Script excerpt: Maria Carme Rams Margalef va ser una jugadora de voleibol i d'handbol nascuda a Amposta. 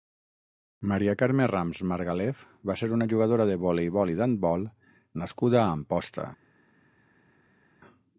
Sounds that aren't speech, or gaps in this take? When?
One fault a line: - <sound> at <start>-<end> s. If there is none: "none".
none